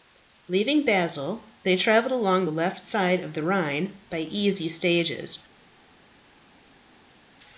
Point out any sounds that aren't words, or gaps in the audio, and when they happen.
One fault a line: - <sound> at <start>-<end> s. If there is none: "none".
none